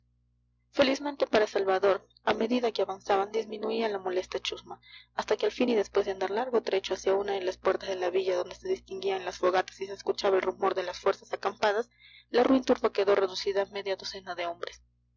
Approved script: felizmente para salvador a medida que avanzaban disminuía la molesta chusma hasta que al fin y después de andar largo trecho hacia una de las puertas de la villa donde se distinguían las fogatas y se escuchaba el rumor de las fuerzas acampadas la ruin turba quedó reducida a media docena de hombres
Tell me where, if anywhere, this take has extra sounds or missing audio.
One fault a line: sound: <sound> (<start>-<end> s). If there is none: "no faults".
no faults